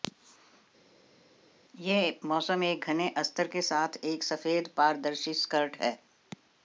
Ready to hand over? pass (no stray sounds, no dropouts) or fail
pass